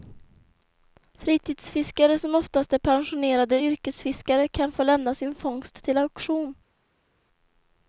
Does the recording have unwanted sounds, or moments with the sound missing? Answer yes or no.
no